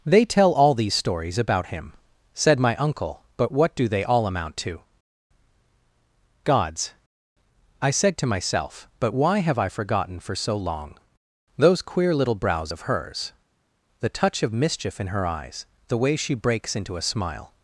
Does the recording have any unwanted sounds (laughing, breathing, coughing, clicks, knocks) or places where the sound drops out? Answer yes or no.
no